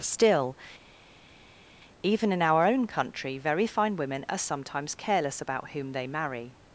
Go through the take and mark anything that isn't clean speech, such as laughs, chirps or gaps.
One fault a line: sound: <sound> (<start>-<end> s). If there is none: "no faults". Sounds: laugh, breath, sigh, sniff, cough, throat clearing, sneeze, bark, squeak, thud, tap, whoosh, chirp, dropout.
no faults